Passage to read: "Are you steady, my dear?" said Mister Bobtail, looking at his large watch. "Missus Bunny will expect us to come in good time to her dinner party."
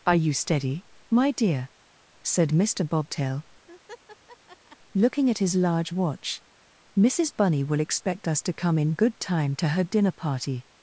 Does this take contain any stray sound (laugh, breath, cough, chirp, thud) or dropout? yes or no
yes